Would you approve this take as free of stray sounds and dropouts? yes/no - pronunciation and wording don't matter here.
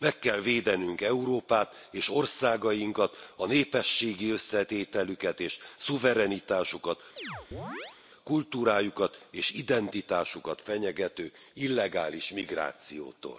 no